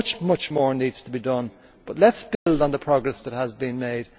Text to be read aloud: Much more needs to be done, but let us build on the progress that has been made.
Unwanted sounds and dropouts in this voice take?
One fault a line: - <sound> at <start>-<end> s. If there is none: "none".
- dropout at 2.3-2.5 s